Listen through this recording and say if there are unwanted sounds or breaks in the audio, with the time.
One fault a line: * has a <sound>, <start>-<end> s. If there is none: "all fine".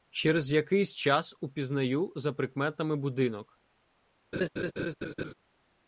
* has a laugh, 4.3-5.3 s